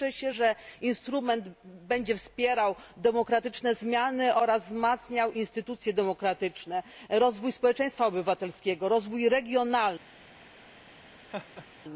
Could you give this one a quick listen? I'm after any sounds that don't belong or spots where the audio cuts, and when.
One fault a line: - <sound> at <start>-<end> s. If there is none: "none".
- laugh at 11.3-11.7 s